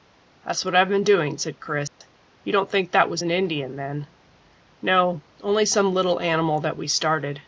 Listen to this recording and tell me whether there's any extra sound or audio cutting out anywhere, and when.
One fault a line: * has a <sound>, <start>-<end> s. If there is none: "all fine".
* has a dropout, 1.9-2.0 s